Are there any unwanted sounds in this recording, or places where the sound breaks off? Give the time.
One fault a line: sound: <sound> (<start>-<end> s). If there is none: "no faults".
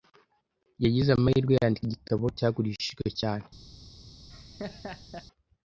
sound: laugh (4.3-5.3 s)